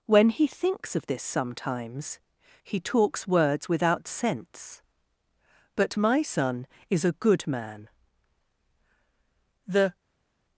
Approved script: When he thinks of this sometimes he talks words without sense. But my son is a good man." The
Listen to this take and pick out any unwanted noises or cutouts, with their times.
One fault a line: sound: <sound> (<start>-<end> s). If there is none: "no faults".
no faults